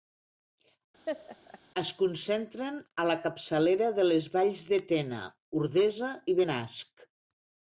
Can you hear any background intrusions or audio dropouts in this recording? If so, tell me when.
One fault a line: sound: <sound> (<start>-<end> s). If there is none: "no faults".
sound: laugh (1.1-1.6 s)